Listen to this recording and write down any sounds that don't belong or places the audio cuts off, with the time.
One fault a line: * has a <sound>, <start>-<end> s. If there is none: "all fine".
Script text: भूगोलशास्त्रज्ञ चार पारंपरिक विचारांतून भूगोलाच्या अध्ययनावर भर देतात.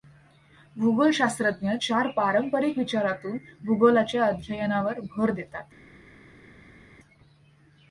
all fine